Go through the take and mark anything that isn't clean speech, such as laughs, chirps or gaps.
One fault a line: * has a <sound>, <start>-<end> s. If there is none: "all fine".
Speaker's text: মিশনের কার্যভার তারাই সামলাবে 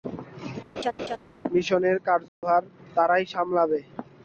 * has a laugh, 0.8-1.2 s
* has a dropout, 2.3-2.4 s